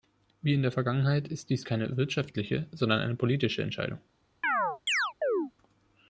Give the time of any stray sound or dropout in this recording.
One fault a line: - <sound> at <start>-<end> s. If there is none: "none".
- chirp at 4.4-5.5 s